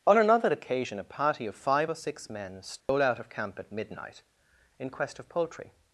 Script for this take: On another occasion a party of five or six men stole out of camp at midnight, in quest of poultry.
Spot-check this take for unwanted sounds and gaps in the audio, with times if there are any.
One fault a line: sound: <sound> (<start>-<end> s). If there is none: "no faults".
sound: dropout (2.8-2.9 s)